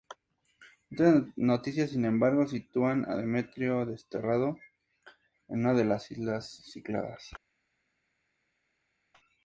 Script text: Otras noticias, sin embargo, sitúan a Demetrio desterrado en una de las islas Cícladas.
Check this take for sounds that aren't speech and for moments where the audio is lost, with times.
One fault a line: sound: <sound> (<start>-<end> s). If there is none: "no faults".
no faults